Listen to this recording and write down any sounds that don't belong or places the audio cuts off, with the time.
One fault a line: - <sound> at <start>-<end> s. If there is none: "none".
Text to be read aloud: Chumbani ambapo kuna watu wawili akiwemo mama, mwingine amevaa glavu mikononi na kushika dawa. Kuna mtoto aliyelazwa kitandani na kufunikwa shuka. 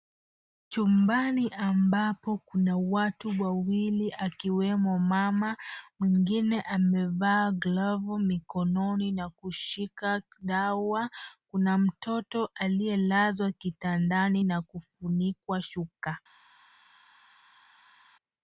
none